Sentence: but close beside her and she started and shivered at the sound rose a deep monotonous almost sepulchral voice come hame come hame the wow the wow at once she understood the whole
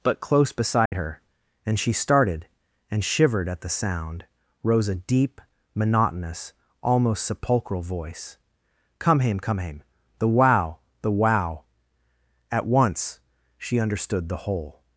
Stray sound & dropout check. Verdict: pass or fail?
fail